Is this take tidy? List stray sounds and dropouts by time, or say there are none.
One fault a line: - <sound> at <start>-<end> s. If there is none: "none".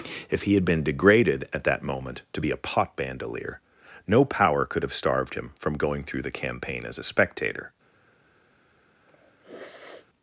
- sniff at 9.1-10.1 s